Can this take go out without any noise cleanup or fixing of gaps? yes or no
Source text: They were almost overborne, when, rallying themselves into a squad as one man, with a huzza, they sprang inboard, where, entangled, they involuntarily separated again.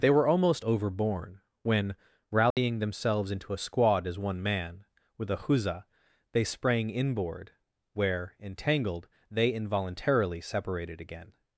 no